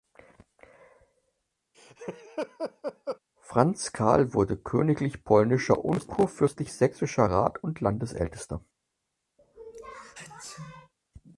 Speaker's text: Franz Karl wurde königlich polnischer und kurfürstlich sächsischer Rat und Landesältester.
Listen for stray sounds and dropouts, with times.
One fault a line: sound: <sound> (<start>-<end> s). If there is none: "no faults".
sound: laugh (1.7-3.2 s)
sound: sneeze (9.4-10.9 s)